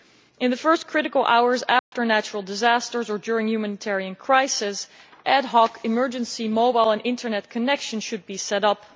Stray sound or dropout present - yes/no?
yes